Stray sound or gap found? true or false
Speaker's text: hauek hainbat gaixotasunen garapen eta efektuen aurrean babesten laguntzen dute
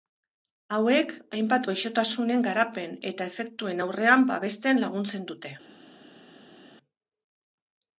false